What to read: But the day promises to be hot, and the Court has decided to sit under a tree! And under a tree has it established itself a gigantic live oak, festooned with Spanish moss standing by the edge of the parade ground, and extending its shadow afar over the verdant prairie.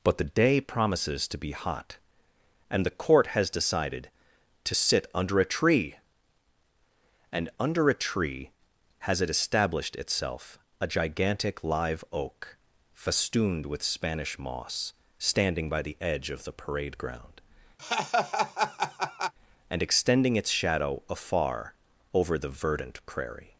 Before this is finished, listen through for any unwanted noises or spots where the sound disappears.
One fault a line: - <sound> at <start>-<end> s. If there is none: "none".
- laugh at 17.8-19.3 s